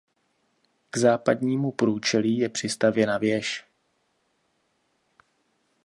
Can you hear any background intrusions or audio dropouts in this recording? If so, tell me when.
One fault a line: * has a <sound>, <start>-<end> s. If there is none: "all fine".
all fine